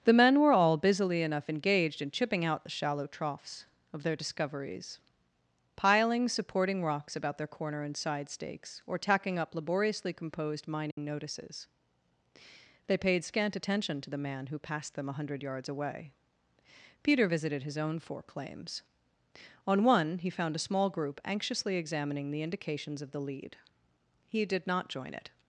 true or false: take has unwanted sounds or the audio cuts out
true